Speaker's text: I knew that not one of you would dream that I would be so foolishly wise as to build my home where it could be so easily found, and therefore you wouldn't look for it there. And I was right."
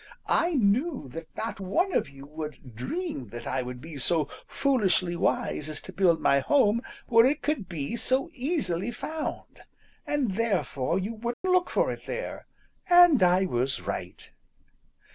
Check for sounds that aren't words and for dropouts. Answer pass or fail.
fail